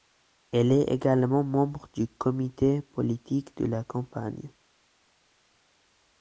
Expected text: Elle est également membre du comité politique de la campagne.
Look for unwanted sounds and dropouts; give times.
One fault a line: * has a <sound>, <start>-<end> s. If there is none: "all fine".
all fine